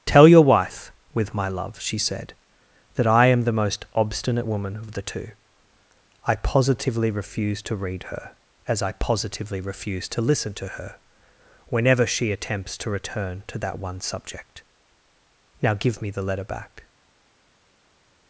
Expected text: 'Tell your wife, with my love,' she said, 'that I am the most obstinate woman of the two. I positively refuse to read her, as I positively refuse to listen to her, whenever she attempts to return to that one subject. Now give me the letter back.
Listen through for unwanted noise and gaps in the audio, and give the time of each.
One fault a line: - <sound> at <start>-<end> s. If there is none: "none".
none